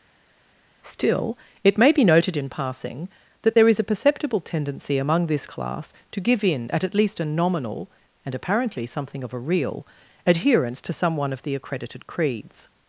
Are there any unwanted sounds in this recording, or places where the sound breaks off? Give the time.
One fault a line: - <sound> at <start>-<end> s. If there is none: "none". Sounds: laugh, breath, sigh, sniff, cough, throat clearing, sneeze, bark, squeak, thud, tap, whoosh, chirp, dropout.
none